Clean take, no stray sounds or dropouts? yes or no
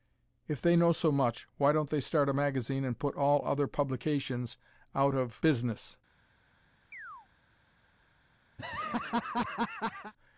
no